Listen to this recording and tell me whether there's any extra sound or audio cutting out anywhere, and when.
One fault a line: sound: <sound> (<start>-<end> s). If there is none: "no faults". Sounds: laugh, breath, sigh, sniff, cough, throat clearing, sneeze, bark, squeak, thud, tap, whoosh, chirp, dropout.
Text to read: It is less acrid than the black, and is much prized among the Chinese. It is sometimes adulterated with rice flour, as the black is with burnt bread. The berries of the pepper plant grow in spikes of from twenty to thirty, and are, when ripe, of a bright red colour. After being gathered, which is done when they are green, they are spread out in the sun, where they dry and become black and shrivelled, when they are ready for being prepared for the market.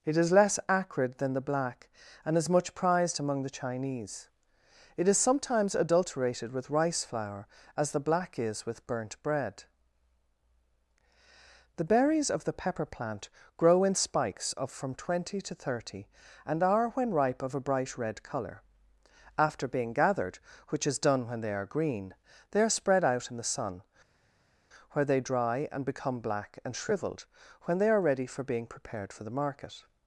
no faults